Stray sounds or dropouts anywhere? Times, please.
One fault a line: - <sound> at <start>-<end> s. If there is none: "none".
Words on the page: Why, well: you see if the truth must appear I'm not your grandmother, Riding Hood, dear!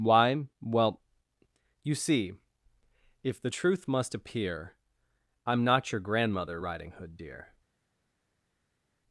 none